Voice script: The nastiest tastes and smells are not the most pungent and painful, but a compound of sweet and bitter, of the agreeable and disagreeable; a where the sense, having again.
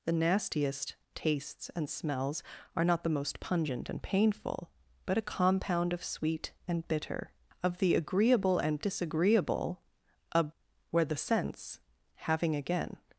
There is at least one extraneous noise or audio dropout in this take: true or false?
false